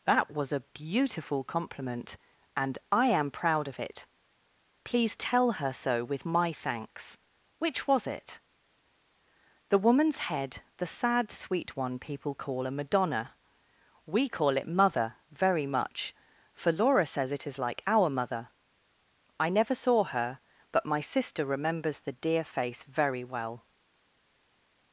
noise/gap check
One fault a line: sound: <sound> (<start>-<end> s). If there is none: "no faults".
no faults